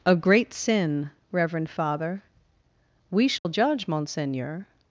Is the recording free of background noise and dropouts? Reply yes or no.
no